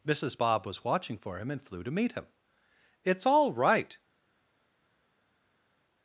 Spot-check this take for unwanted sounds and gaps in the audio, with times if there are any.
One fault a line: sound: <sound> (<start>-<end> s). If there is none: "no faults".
no faults